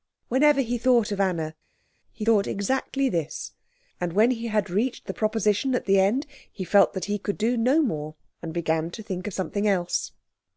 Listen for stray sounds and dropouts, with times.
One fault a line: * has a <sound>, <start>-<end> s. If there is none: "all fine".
all fine